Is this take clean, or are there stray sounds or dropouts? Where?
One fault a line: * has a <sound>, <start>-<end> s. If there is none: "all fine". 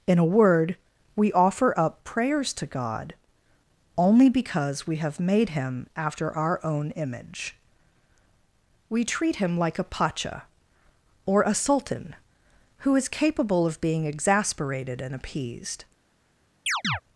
* has a chirp, 16.7-17.0 s